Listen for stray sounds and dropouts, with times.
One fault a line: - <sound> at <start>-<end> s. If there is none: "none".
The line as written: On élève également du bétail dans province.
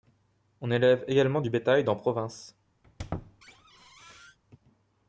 - squeak at 2.8-4.4 s